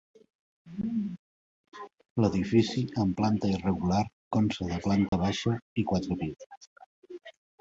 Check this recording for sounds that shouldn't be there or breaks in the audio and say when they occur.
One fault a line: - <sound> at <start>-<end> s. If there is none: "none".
- dropout at 5.1-5.1 s